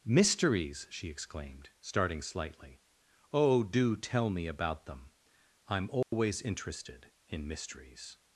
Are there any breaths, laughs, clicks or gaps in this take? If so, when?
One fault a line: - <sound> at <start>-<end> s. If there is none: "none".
- dropout at 6.0-6.1 s